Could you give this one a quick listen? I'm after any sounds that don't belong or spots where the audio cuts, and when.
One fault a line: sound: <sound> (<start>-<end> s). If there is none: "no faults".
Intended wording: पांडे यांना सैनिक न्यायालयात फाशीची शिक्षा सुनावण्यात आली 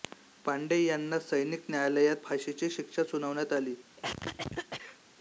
sound: cough (4.0-5.0 s)